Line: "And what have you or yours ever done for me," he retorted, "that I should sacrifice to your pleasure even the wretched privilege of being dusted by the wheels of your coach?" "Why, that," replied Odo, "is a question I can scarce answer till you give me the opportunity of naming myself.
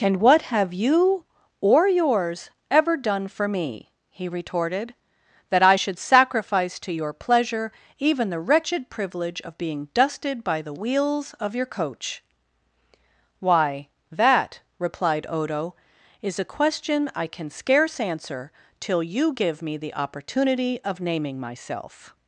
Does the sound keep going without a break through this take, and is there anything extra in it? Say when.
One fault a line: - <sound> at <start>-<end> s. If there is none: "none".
none